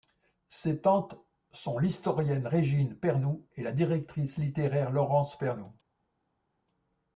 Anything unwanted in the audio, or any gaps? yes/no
no